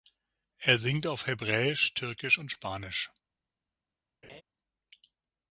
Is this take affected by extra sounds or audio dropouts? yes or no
yes